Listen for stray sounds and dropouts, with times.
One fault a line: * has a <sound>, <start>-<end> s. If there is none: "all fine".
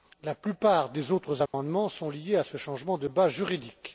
* has a dropout, 1.5-1.5 s